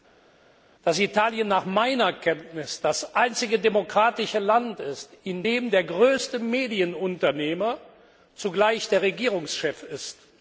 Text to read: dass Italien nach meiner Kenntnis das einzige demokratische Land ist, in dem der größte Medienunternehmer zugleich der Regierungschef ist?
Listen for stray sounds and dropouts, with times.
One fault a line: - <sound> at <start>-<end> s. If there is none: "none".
none